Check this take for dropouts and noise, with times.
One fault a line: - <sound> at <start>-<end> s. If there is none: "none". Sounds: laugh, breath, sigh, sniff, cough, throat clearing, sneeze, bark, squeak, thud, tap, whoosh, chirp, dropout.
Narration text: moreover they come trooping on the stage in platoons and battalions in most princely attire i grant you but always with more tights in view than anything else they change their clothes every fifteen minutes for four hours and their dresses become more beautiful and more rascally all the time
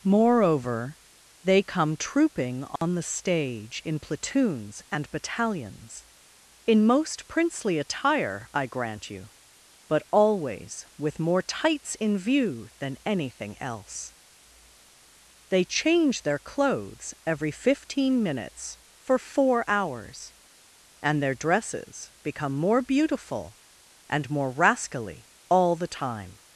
- dropout at 2.8-2.8 s